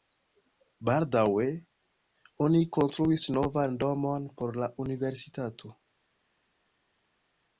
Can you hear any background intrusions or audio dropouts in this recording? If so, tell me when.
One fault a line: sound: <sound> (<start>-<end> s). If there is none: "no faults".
no faults